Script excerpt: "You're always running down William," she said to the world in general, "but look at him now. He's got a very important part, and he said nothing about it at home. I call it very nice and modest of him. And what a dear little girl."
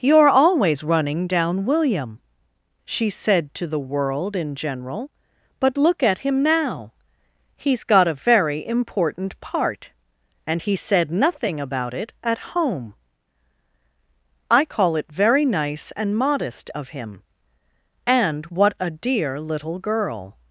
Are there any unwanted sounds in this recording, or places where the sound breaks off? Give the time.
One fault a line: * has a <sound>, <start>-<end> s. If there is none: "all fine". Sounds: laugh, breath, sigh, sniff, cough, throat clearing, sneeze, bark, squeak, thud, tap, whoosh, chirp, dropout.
all fine